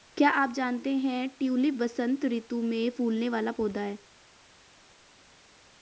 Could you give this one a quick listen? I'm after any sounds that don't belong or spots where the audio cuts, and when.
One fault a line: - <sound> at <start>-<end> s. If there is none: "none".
none